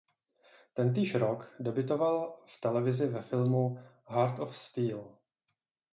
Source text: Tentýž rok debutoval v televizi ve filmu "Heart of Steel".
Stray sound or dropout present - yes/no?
no